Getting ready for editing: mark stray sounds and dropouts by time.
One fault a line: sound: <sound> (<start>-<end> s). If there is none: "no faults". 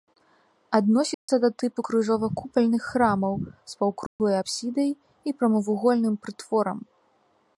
sound: dropout (1.1-1.3 s)
sound: dropout (4.1-4.2 s)